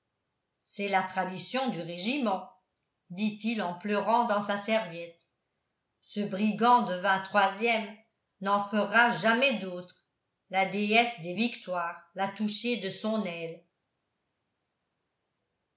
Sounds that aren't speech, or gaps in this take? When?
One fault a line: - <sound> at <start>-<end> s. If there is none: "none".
none